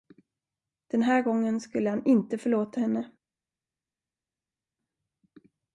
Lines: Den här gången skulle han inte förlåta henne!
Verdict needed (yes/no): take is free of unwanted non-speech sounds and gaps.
yes